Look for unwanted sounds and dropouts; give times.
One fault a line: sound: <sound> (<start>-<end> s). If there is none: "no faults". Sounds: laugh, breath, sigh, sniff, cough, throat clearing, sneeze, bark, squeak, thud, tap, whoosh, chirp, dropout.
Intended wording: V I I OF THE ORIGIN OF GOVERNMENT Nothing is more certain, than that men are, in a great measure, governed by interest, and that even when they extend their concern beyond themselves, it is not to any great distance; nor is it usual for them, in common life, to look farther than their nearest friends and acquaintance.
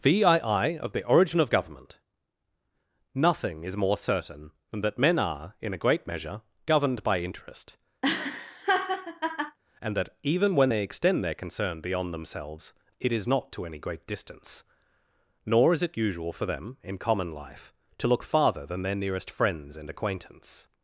sound: laugh (8.0-9.6 s)